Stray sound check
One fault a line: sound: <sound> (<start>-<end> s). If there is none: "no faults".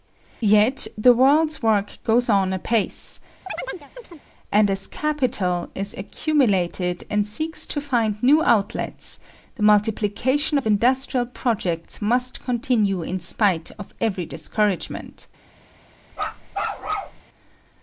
sound: chirp (3.5-4.2 s)
sound: bark (16.1-17.2 s)